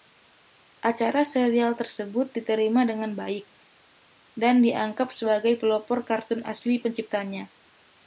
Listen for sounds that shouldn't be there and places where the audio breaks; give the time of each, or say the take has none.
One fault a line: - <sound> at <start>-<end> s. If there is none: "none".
none